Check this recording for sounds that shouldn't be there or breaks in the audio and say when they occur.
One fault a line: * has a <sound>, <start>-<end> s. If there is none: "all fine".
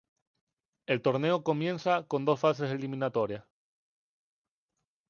all fine